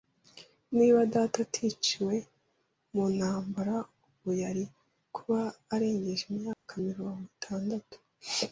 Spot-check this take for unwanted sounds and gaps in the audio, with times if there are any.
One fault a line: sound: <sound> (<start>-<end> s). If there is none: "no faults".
sound: dropout (6.5-6.7 s)